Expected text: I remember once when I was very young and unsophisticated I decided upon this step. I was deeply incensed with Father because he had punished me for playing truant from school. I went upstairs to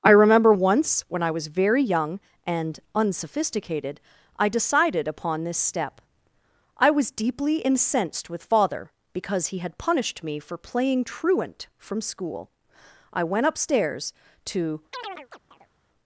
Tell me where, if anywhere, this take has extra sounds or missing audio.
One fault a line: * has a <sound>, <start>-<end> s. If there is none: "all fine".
* has a chirp, 14.9-15.7 s